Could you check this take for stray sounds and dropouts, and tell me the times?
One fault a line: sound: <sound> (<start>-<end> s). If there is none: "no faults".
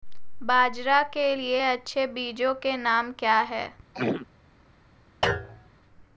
sound: throat clearing (3.9-4.3 s)
sound: thud (5.2-5.7 s)